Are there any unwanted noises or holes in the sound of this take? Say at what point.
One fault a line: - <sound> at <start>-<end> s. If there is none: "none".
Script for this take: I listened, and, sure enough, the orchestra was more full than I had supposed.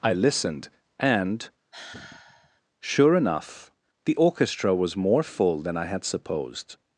- sigh at 1.7-2.6 s